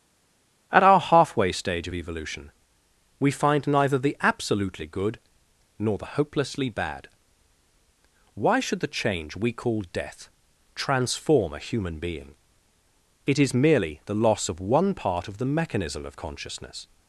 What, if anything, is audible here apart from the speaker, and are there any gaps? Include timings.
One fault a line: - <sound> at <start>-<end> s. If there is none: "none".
none